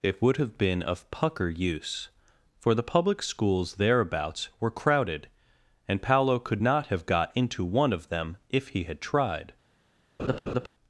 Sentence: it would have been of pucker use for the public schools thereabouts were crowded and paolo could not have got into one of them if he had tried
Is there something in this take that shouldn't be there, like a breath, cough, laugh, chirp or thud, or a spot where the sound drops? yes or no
yes